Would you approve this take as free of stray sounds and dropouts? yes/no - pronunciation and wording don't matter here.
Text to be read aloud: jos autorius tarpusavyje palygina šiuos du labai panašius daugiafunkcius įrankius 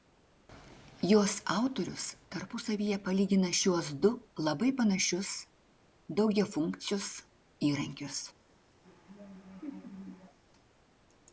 no